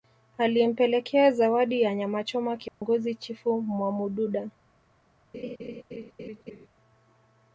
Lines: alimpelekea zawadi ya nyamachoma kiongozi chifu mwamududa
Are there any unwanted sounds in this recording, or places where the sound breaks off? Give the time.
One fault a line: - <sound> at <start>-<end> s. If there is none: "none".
- dropout at 2.7-2.8 s
- laugh at 5.3-6.7 s